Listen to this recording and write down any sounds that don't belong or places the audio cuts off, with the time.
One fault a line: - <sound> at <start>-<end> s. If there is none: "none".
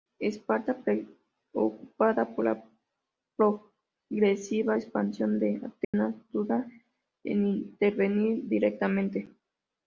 - dropout at 5.8-5.9 s